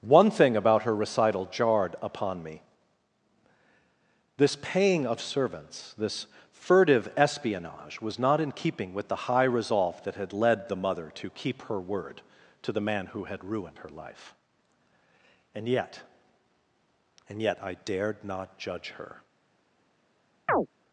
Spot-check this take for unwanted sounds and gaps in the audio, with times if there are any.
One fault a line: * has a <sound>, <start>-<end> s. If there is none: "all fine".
* has a chirp, 20.5-20.7 s